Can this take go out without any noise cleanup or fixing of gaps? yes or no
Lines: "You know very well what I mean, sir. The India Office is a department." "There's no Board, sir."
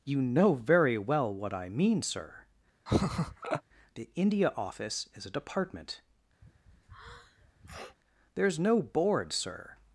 no